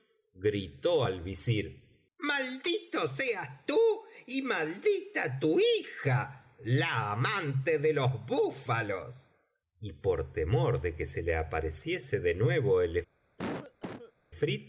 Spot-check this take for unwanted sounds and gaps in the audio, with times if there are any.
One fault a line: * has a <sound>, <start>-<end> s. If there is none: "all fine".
* has a cough, 13.4-14.1 s